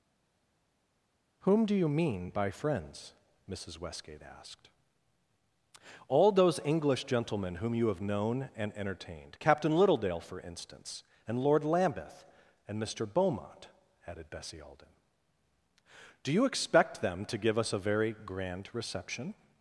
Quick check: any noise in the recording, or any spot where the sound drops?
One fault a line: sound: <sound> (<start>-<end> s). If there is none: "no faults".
no faults